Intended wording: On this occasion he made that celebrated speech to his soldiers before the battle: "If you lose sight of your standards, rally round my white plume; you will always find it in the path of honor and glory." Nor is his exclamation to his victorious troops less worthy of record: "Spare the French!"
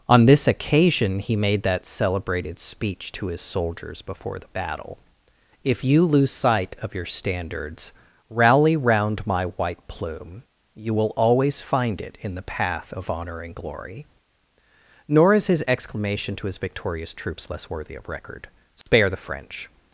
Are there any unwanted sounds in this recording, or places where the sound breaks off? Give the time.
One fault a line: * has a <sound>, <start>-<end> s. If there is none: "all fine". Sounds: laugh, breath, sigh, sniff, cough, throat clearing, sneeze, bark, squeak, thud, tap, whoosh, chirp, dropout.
* has a dropout, 18.8-18.9 s